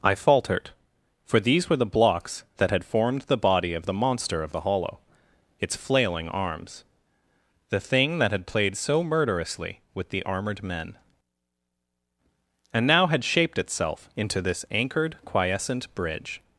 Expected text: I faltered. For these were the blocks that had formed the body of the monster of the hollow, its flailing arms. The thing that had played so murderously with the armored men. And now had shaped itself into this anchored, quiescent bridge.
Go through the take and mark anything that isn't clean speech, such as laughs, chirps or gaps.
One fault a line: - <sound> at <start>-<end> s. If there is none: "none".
none